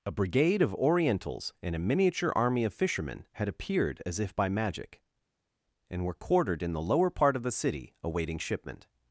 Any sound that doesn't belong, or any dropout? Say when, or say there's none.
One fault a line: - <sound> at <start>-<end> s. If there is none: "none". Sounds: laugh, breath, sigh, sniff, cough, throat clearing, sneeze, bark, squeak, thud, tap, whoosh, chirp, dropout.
none